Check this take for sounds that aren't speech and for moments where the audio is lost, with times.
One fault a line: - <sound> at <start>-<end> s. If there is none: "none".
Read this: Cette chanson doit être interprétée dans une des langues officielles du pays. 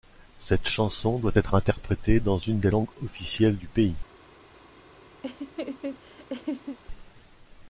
- laugh at 5.2-6.8 s